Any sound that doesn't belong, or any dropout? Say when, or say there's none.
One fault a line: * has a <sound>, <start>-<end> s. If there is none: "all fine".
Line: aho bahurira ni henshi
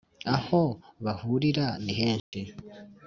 * has a dropout, 2.2-2.3 s